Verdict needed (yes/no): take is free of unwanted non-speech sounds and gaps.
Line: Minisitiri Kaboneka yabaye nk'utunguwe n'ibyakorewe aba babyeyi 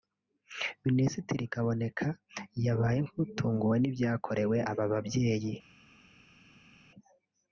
yes